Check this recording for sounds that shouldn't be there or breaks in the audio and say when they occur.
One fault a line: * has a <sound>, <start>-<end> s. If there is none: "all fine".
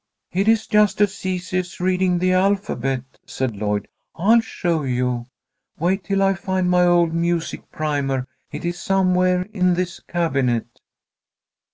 all fine